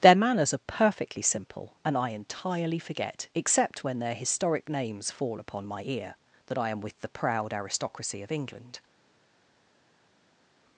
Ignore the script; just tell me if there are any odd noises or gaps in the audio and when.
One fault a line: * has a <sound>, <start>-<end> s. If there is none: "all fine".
all fine